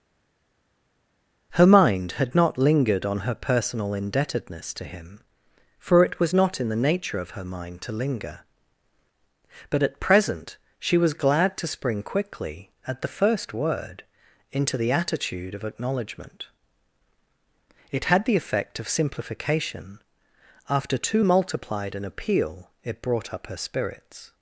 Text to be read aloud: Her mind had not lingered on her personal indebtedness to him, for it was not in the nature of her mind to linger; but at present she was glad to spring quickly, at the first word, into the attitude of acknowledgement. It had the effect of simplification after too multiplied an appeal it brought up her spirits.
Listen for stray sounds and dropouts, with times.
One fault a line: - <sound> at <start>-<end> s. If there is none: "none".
none